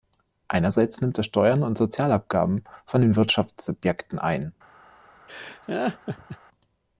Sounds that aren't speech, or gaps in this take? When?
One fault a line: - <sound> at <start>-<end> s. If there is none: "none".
- laugh at 5.3-6.4 s